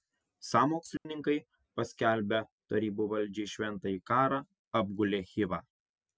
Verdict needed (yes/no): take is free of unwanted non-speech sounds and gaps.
no